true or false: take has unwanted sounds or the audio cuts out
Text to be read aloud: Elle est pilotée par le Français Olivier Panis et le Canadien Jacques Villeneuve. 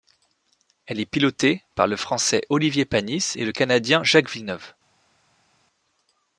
false